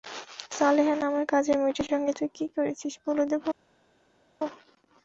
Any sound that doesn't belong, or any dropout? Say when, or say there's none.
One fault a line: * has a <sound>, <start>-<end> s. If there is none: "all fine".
all fine